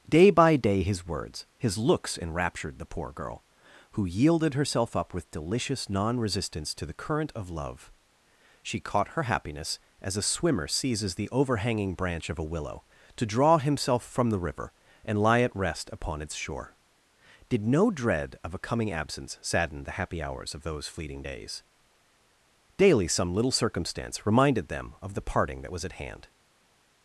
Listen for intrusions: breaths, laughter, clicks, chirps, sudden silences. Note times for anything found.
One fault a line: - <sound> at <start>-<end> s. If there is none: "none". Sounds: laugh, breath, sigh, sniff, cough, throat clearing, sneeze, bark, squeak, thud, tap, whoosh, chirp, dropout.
none